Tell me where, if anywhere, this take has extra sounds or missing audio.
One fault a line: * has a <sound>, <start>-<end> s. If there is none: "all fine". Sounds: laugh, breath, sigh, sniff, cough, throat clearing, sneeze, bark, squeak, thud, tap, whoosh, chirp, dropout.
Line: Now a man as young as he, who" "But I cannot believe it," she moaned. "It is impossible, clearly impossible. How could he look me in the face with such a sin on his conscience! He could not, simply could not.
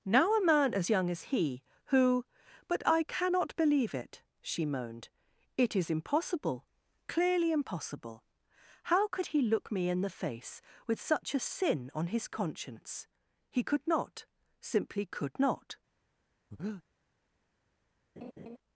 * has a breath, 16.5-16.8 s
* has a laugh, 18.2-18.6 s